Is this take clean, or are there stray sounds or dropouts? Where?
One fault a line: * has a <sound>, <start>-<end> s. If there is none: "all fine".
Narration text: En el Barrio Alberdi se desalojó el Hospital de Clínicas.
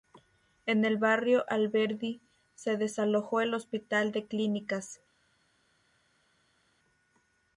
all fine